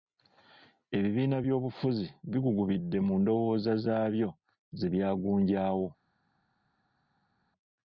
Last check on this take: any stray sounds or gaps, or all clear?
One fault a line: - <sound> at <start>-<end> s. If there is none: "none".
none